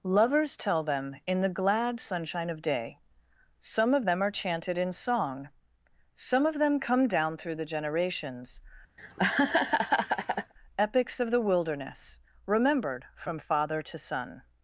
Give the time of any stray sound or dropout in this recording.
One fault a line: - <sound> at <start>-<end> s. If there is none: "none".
- laugh at 9.0-10.5 s